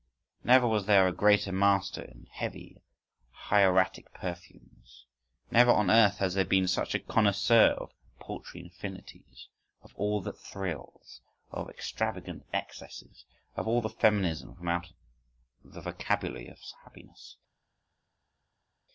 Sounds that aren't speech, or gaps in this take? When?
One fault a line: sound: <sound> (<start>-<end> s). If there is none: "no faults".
no faults